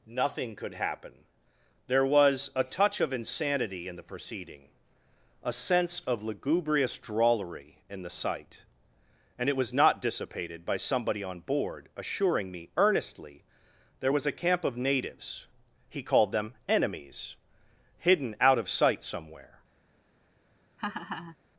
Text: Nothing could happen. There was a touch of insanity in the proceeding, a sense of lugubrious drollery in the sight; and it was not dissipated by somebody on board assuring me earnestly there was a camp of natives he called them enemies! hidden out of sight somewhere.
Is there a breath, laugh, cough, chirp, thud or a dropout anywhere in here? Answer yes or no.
yes